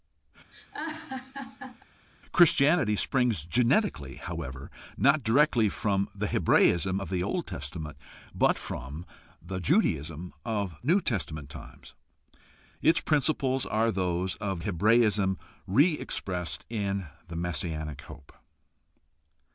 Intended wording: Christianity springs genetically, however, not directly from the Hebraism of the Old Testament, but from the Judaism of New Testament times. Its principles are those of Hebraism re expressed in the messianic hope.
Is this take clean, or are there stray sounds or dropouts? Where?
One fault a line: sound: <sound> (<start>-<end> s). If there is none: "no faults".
sound: laugh (0.5-1.8 s)